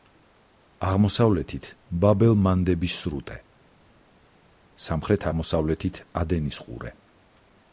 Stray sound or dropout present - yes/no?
no